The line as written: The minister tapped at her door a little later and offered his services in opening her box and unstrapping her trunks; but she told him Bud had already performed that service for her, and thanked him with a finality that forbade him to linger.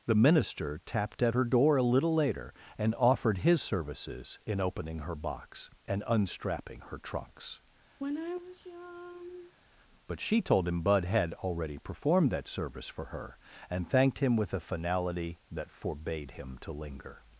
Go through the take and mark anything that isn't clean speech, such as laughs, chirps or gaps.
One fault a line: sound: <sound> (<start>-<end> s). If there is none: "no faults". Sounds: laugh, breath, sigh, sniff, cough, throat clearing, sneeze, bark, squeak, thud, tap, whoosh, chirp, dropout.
sound: sigh (8.0-9.5 s)